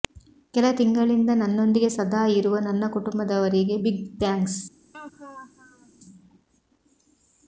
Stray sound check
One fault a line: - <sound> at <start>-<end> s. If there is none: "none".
- laugh at 4.9-5.9 s